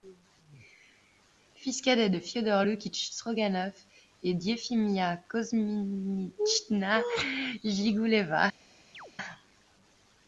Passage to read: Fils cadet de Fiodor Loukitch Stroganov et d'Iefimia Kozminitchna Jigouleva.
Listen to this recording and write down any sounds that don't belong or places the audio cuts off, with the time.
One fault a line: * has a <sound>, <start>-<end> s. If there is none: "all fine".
* has a chirp, 8.9-9.1 s